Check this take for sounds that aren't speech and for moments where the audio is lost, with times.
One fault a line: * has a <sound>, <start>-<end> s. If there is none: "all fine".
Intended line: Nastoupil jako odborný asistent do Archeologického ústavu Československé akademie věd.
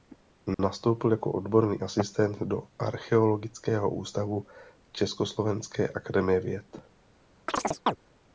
* has a dropout, 0.5-0.6 s
* has a chirp, 7.5-8.0 s